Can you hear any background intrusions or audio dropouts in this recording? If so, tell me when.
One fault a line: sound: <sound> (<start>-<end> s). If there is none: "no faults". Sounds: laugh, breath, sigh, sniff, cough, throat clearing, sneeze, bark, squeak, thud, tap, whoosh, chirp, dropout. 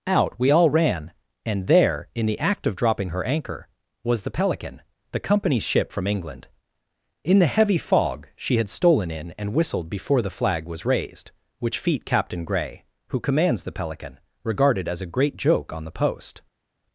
no faults